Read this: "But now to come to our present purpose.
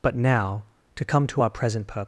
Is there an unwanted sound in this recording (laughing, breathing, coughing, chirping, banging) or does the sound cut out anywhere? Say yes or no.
no